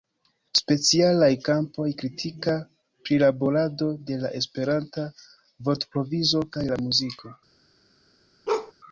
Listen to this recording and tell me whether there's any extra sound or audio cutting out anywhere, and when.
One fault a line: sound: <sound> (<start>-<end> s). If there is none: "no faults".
sound: bark (8.5-8.7 s)